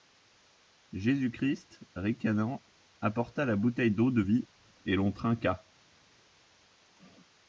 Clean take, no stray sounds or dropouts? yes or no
yes